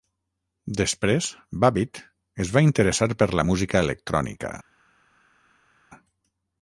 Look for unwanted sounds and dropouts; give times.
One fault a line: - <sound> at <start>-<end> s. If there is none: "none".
none